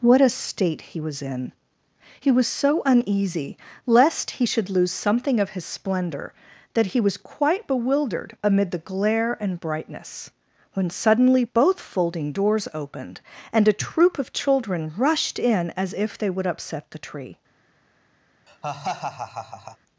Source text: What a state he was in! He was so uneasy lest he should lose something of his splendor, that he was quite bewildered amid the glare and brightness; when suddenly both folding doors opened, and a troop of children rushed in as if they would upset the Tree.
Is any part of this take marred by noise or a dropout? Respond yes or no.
yes